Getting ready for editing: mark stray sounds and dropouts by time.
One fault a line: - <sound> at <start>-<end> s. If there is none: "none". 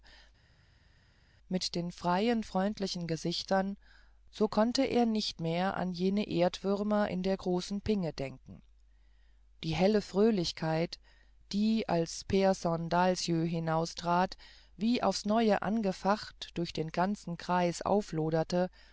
none